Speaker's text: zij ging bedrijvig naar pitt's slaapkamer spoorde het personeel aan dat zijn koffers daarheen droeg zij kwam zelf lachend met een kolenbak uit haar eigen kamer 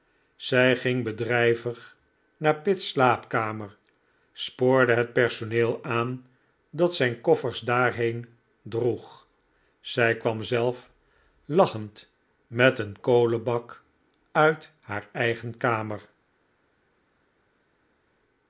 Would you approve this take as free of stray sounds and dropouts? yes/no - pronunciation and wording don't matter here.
yes